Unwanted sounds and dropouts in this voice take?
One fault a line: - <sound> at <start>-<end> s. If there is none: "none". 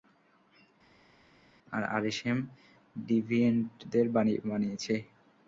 none